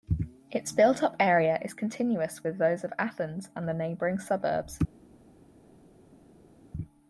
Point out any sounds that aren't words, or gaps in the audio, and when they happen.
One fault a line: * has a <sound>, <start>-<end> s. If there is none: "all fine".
all fine